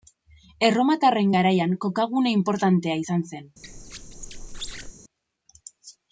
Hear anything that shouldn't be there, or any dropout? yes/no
yes